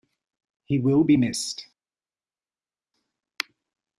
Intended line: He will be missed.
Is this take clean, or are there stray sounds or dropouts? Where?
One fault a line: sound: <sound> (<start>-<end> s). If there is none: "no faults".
no faults